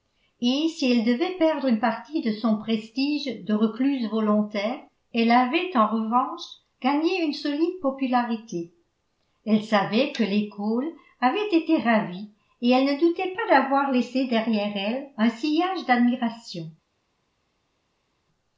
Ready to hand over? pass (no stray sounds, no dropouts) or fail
pass